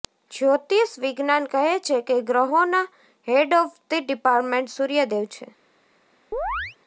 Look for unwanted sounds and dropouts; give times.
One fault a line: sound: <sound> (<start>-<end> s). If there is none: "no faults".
sound: chirp (6.3-6.8 s)